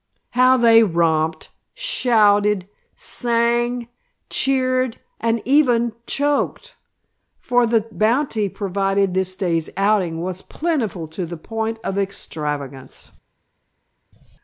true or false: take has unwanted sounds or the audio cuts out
false